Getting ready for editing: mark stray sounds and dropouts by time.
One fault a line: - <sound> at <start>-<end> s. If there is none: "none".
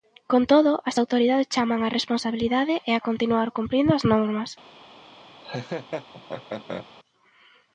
- laugh at 5.4-6.9 s